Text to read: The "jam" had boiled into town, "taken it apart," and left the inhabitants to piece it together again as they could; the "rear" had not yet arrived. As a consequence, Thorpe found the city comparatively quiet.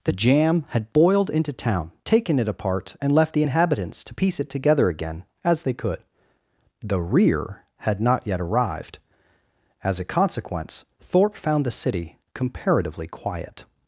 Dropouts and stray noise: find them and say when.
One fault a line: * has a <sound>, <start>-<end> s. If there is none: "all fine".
all fine